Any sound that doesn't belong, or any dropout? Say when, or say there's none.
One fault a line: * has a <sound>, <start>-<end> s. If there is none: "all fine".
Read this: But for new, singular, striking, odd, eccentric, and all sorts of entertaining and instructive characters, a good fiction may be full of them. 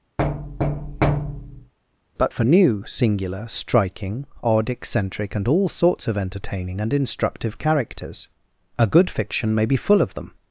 * has a thud, 0.2-1.7 s